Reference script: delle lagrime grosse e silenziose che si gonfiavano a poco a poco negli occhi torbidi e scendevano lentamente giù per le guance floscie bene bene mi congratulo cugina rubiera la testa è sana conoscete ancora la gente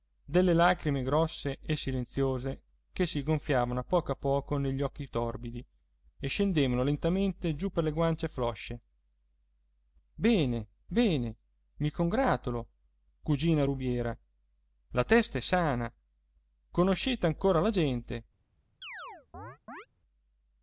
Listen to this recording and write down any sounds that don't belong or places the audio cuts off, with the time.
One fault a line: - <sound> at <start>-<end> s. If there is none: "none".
- chirp at 18.8-19.9 s